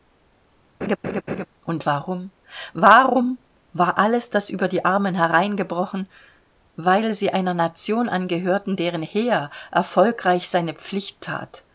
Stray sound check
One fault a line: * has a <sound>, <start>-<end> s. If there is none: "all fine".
* has a laugh, 0.8-1.5 s